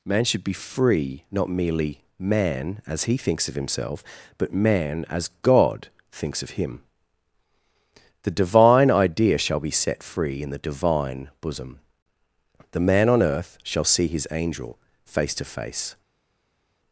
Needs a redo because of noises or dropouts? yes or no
no